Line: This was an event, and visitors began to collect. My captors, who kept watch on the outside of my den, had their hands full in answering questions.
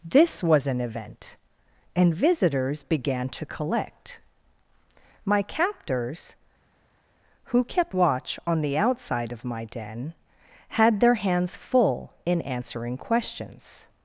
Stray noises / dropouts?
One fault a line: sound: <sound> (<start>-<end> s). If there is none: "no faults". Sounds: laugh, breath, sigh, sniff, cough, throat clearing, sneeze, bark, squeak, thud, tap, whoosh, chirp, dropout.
no faults